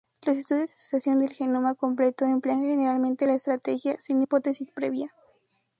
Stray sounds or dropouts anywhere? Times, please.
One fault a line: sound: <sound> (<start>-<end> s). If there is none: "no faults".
no faults